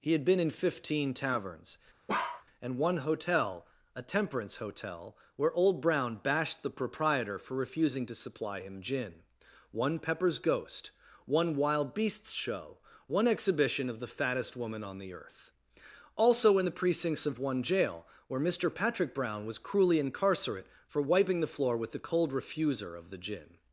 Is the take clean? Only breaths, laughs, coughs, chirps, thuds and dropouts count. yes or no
no